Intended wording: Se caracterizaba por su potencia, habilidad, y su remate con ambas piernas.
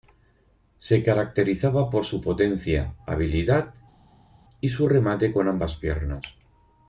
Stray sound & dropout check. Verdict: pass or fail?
pass